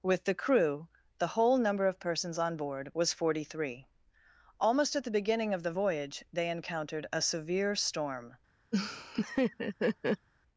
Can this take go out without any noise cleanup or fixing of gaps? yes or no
no